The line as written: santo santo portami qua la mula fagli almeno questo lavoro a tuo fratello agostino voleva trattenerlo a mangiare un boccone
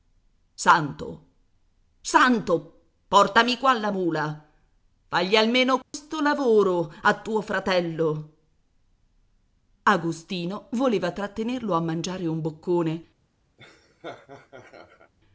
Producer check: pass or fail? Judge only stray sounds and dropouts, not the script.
fail